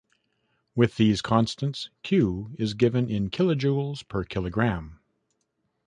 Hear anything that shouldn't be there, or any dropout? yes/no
no